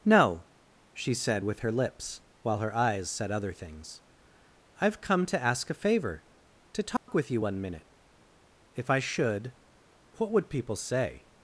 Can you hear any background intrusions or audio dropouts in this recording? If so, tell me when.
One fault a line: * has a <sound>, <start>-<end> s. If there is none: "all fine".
* has a dropout, 7.0-7.1 s